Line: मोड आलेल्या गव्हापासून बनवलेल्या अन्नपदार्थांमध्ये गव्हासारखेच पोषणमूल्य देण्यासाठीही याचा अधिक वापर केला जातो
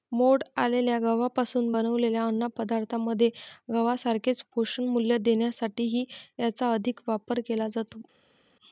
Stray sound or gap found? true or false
false